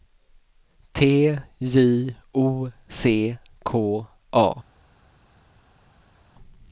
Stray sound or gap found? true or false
false